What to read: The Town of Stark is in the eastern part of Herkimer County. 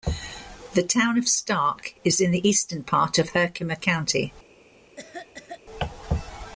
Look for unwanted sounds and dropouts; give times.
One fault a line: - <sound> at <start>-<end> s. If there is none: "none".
- cough at 5.0-5.6 s